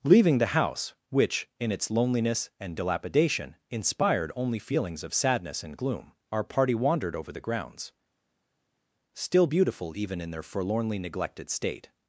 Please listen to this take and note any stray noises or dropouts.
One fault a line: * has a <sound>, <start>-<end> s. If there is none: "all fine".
all fine